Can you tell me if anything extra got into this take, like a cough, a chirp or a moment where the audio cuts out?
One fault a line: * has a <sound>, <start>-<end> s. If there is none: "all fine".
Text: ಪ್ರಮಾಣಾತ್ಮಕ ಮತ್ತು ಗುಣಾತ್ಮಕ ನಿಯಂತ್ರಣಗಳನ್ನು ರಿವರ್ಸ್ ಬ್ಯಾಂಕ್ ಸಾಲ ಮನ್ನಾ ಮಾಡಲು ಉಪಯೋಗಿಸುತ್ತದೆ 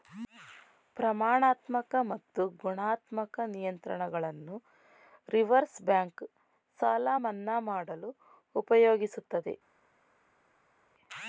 all fine